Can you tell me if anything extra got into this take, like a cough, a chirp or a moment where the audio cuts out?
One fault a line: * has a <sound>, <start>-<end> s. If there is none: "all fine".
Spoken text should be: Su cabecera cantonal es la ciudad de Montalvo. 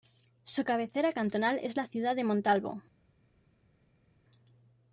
all fine